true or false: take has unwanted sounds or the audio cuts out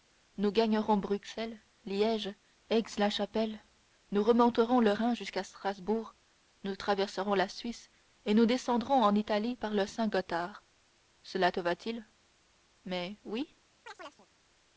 true